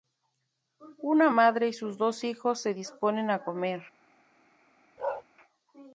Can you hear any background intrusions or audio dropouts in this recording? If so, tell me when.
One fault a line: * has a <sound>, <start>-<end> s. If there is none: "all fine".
* has a bark, 5.0-5.2 s